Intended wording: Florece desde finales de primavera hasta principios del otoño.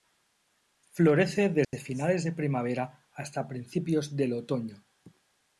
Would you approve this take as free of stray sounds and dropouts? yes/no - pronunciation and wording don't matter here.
no